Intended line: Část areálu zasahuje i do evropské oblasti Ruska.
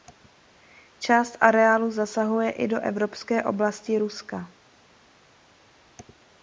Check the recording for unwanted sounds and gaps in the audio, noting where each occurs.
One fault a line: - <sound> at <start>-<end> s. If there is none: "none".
none